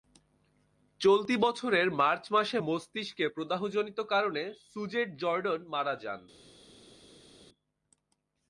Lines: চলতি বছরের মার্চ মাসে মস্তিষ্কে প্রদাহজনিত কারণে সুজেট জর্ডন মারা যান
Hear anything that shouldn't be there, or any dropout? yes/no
no